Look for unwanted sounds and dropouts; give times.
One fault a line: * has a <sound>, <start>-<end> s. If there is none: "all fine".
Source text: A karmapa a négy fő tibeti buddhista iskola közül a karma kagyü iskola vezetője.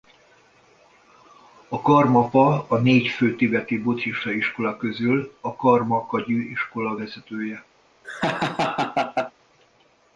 * has a laugh, 8.0-9.3 s